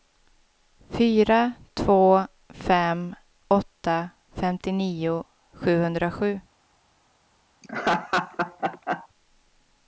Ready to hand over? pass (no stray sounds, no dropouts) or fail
fail